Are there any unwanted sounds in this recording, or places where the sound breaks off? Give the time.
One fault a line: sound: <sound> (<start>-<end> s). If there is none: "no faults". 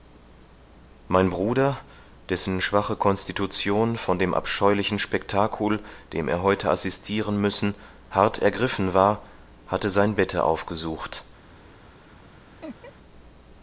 sound: laugh (12.6-12.9 s)